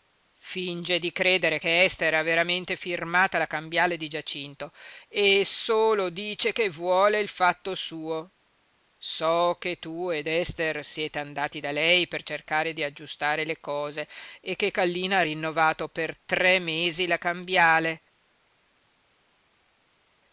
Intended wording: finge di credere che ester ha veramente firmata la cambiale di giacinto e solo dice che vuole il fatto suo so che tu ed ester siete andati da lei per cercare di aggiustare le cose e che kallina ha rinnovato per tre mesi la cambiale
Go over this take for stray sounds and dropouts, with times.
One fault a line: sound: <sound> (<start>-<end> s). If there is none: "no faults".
no faults